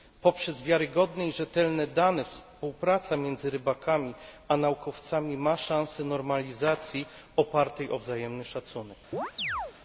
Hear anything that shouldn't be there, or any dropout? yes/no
yes